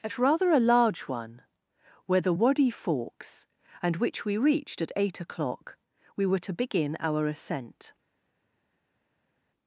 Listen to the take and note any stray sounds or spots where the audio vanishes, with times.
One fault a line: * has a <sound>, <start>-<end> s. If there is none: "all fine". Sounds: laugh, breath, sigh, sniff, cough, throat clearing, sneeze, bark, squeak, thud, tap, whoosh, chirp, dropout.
all fine